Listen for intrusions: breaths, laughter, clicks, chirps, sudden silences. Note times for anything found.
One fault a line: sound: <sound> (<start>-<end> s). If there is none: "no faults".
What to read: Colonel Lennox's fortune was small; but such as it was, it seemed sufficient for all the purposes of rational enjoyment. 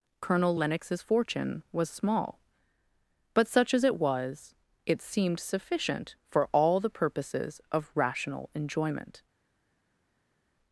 no faults